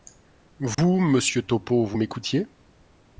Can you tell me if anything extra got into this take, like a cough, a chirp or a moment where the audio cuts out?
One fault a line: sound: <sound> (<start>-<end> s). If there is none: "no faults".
sound: dropout (0.7-0.8 s)